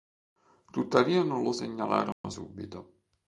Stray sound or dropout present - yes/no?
yes